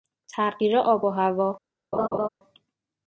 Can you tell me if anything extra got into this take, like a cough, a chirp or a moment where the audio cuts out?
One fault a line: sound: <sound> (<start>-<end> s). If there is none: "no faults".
sound: laugh (1.9-2.3 s)